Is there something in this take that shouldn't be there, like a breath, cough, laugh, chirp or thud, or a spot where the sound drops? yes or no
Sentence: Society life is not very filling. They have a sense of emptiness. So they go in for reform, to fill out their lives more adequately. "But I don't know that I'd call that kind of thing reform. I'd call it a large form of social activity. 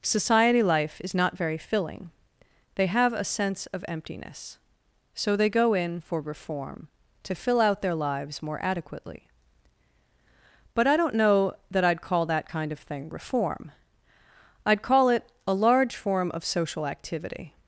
no